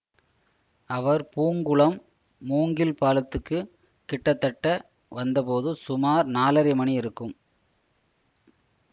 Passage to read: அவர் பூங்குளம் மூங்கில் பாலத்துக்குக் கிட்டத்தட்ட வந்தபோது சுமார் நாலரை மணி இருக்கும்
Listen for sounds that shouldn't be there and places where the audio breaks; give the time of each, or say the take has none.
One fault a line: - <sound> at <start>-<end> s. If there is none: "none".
none